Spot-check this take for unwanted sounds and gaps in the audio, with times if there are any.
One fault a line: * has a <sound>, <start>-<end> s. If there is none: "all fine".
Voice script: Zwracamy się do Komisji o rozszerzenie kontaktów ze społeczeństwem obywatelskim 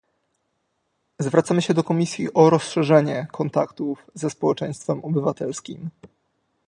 all fine